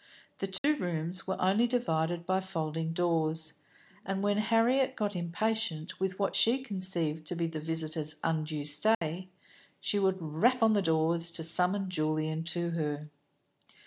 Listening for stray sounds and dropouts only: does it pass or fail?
fail